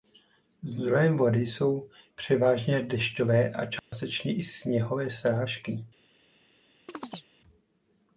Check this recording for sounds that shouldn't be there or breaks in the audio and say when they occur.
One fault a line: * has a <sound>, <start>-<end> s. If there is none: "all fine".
* has a dropout, 3.8-3.9 s
* has a chirp, 6.9-7.3 s